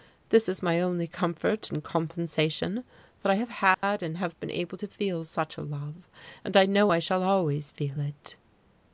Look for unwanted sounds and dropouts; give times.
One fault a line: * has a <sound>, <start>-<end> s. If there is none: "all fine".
* has a dropout, 3.7-3.8 s